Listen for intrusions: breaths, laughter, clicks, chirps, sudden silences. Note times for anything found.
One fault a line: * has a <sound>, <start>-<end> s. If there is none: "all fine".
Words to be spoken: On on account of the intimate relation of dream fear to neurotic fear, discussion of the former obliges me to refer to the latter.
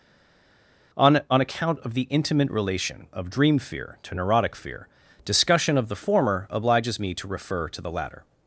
all fine